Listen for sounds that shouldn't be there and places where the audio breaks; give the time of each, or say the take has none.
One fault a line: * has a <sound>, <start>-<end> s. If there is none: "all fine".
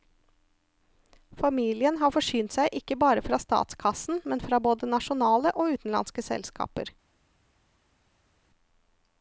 all fine